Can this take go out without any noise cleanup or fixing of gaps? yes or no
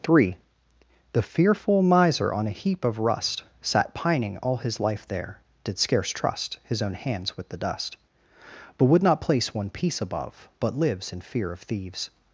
yes